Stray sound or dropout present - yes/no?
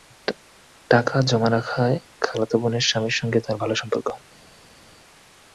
no